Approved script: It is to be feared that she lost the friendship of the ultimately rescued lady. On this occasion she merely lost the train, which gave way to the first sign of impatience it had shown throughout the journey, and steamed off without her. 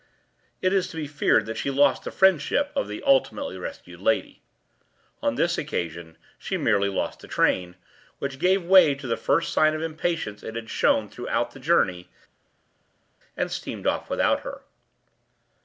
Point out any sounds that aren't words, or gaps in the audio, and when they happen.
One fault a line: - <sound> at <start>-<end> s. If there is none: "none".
none